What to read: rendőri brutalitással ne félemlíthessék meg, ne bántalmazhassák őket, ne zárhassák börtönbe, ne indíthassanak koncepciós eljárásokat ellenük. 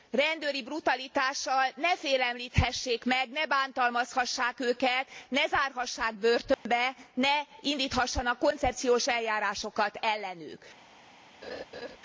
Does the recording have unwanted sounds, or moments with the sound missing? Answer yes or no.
yes